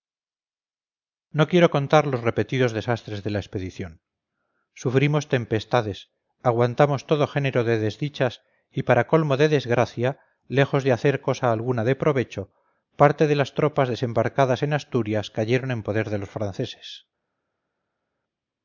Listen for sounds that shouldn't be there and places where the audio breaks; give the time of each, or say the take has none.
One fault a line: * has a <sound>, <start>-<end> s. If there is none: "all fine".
all fine